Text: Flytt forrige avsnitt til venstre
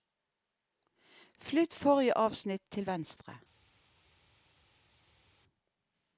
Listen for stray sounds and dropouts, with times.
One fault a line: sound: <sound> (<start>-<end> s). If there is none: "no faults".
no faults